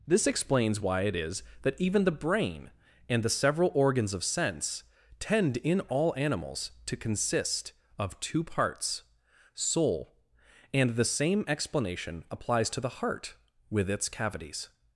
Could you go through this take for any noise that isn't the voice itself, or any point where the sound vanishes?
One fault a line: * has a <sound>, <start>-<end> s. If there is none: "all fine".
all fine